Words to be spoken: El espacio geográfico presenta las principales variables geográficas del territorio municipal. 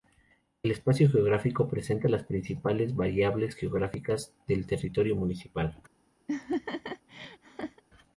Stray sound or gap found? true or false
true